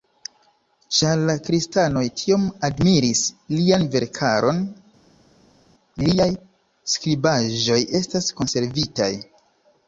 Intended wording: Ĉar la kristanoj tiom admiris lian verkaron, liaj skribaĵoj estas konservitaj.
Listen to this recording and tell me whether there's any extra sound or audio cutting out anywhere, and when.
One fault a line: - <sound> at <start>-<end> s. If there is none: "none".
none